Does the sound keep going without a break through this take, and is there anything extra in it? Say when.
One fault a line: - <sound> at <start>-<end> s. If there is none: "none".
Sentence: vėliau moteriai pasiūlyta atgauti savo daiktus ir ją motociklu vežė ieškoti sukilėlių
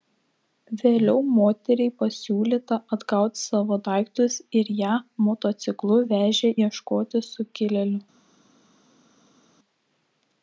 none